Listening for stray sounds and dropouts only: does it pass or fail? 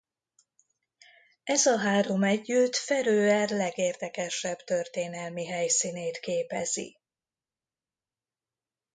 pass